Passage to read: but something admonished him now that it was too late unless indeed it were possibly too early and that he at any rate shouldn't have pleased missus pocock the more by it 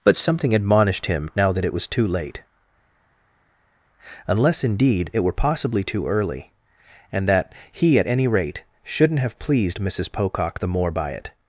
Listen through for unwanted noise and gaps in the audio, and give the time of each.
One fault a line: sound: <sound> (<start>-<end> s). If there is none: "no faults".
no faults